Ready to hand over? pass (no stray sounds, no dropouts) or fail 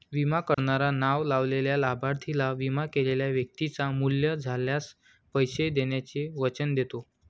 fail